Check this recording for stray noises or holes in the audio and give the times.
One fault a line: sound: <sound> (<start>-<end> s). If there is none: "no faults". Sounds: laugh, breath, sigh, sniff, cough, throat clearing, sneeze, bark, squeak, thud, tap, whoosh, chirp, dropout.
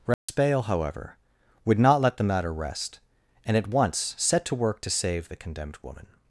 sound: dropout (0.1-0.3 s)